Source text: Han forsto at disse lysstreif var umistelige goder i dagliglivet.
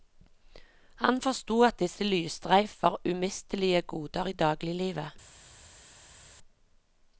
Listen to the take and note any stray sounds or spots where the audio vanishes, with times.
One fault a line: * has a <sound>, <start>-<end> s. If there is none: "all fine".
all fine